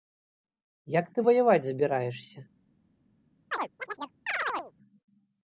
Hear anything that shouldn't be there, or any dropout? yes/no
yes